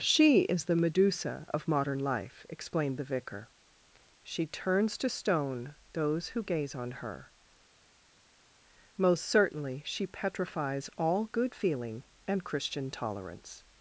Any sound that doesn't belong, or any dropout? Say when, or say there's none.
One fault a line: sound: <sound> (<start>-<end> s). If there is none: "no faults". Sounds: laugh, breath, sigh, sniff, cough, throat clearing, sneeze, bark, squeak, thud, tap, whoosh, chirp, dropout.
no faults